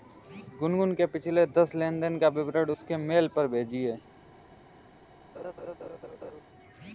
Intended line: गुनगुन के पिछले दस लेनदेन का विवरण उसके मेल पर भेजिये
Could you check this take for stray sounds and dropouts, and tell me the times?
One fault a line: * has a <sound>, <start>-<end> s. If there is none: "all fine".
* has a laugh, 5.3-6.4 s